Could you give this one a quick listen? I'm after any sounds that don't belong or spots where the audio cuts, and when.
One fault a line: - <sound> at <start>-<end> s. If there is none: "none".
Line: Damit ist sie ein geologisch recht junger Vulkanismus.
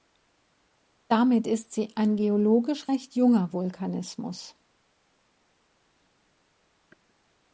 none